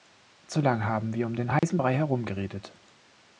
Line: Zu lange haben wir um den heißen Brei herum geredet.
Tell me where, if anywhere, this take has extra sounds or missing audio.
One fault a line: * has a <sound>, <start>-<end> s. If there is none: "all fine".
* has a dropout, 1.6-1.6 s